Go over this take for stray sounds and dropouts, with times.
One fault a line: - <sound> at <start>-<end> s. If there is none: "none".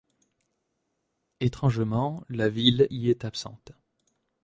none